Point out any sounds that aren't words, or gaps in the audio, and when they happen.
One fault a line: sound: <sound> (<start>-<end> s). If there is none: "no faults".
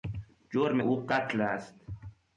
no faults